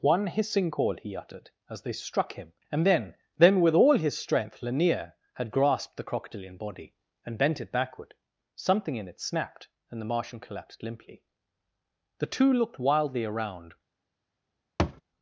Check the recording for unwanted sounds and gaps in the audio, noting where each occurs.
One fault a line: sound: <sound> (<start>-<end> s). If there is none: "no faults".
sound: thud (14.8-15.0 s)